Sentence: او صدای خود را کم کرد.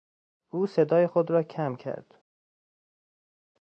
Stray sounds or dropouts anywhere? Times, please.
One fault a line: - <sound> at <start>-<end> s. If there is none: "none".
none